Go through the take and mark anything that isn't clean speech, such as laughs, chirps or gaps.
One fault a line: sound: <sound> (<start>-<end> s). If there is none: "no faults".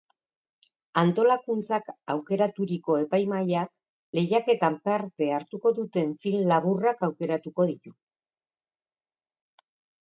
no faults